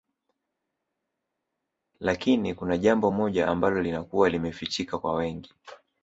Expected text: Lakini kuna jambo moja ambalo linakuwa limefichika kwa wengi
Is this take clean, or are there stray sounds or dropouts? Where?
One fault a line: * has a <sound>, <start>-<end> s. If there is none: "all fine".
all fine